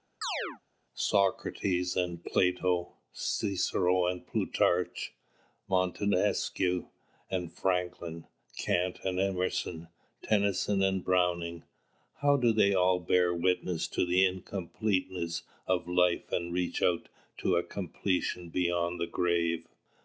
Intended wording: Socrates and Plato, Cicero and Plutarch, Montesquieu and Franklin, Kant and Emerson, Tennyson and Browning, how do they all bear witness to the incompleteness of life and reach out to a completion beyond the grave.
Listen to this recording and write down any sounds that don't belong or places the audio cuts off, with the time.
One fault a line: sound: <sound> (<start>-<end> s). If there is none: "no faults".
sound: chirp (0.2-0.6 s)